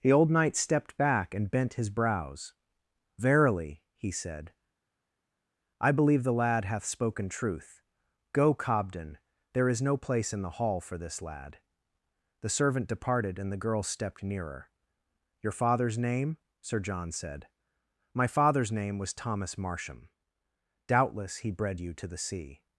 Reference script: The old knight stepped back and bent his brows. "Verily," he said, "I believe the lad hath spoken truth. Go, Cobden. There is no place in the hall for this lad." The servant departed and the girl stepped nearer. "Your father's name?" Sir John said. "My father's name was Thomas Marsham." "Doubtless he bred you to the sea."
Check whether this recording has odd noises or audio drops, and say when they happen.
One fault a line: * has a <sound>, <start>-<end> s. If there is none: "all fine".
all fine